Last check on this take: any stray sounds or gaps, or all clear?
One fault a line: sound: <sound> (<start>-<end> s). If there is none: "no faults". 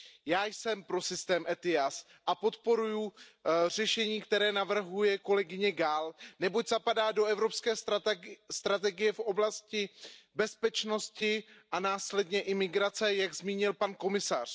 no faults